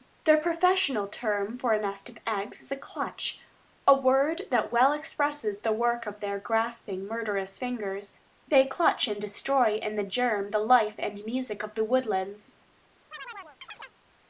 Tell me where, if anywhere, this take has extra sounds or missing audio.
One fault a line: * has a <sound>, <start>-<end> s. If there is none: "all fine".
* has a chirp, 13.1-14.0 s